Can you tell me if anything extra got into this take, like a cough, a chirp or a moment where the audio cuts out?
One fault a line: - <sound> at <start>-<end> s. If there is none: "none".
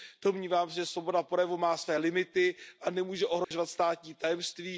- dropout at 3.4-3.5 s